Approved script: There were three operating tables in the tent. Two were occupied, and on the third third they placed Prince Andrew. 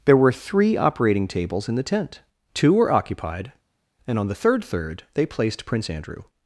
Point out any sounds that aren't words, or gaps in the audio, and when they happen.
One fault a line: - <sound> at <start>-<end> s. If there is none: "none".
none